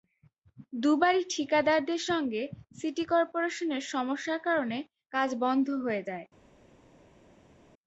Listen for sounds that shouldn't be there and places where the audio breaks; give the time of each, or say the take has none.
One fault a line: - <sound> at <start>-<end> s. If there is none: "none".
none